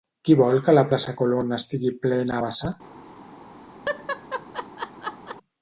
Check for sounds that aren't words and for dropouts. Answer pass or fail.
fail